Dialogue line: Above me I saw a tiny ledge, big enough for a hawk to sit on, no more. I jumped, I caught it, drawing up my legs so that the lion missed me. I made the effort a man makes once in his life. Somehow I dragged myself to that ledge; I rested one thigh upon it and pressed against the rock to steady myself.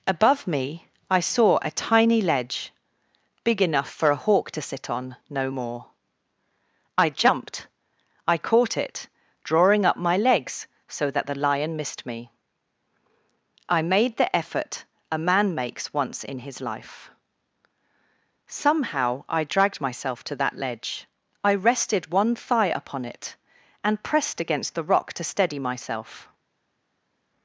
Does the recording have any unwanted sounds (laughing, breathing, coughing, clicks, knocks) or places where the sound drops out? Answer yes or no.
no